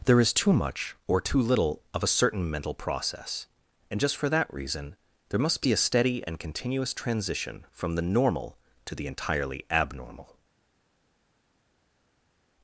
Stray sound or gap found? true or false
false